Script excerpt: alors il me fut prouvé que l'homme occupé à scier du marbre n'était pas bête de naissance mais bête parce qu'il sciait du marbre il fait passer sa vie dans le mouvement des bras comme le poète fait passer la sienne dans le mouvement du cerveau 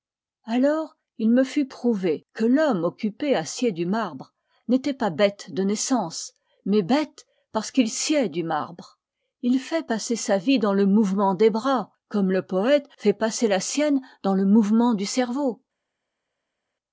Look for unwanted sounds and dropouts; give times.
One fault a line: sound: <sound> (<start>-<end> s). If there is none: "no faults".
no faults